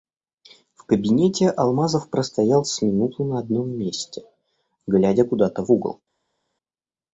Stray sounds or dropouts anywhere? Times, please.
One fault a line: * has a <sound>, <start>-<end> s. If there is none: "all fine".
all fine